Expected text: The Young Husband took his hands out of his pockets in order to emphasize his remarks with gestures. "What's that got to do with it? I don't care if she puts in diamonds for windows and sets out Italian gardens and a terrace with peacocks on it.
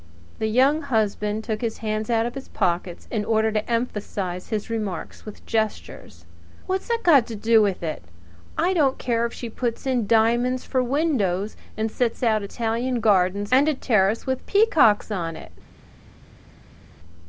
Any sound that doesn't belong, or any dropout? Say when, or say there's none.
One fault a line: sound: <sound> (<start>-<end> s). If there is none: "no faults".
no faults